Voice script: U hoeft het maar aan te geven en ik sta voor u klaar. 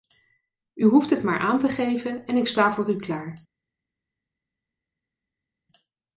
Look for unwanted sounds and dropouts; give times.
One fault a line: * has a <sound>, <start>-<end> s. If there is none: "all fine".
all fine